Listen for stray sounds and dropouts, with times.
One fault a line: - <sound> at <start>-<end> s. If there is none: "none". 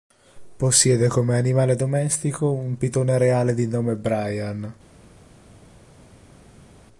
none